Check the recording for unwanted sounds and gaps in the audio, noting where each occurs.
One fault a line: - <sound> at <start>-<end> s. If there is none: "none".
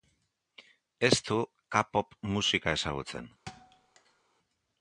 - thud at 3.5-4.2 s